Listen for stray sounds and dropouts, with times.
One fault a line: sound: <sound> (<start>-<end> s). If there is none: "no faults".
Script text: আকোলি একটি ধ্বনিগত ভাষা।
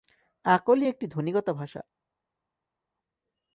no faults